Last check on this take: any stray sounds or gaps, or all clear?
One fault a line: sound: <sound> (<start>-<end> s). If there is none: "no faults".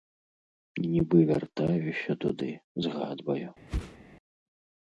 sound: whoosh (3.7-4.0 s)